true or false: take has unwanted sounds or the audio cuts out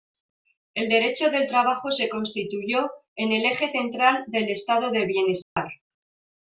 true